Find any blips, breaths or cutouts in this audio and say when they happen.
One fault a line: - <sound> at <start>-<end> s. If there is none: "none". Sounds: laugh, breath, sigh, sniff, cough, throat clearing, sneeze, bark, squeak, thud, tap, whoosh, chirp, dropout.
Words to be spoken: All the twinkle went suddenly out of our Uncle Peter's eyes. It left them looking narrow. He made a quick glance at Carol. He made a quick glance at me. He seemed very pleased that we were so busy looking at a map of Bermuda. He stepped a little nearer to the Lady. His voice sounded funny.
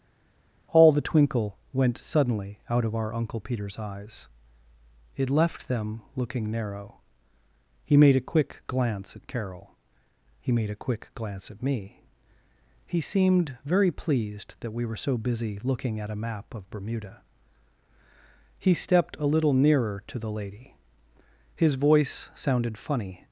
none